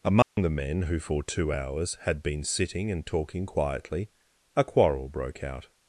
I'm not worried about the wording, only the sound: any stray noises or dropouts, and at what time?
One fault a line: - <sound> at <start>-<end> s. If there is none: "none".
- dropout at 0.2-0.4 s